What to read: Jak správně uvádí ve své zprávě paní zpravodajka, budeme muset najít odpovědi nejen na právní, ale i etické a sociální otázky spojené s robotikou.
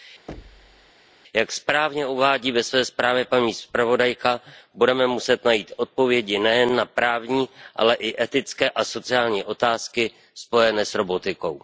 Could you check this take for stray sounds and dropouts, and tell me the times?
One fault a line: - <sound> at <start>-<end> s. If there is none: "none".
- thud at 0.3-0.9 s